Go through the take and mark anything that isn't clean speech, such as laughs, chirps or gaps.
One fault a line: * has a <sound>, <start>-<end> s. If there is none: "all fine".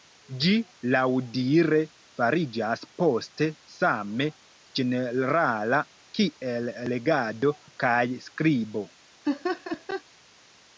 * has a laugh, 9.2-10.0 s